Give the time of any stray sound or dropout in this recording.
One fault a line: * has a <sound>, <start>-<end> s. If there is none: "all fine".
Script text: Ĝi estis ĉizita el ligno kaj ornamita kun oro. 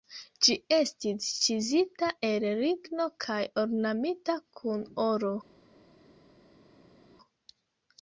all fine